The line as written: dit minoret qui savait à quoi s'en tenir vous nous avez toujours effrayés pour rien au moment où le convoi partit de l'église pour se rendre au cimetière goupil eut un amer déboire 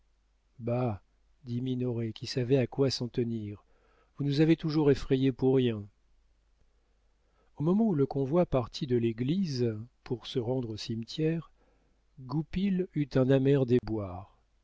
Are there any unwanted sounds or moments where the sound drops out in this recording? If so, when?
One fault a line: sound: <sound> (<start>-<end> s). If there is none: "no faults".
sound: dropout (13.8-13.8 s)